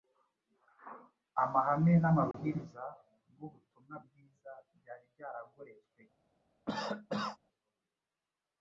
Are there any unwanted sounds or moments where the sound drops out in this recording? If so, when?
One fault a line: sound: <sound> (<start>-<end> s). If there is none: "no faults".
sound: dropout (2.3-2.3 s)
sound: cough (6.7-7.4 s)